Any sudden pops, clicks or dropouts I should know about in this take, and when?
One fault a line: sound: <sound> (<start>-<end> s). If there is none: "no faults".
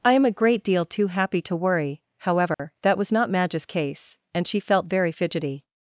sound: dropout (2.5-2.6 s)